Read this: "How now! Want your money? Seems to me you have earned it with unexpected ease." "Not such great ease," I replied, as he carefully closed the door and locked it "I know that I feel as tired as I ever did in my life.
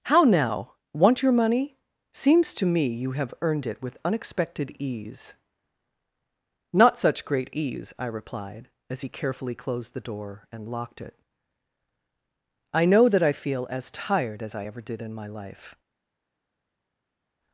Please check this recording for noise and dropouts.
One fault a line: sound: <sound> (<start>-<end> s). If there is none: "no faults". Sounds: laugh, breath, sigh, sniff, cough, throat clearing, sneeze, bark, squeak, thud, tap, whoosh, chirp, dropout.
no faults